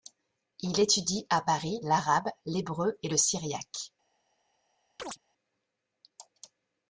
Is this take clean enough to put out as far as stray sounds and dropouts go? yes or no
no